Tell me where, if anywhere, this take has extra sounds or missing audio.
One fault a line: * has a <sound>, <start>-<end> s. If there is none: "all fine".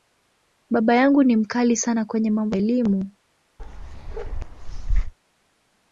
* has a bark, 3.6-5.1 s